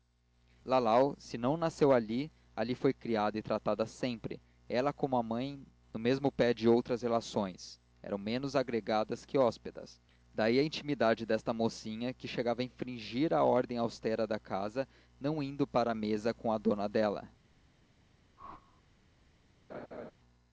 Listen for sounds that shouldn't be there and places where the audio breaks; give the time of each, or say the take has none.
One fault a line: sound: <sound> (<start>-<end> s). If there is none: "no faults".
sound: whoosh (18.4-18.8 s)
sound: laugh (19.7-20.1 s)